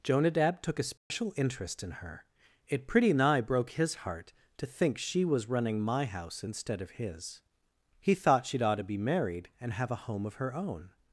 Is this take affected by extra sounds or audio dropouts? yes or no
yes